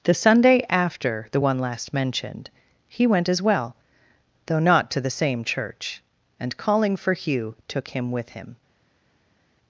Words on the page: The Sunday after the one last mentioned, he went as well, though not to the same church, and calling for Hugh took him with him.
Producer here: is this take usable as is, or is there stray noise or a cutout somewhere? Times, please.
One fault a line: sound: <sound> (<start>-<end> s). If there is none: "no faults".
no faults